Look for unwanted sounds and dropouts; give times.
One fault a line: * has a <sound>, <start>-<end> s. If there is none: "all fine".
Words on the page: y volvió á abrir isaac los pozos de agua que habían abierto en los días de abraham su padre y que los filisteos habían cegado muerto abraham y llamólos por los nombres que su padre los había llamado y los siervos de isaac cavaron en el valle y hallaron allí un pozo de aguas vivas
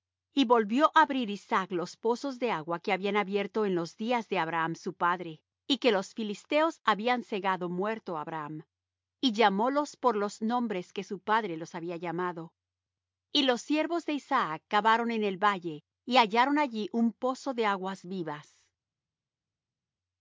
all fine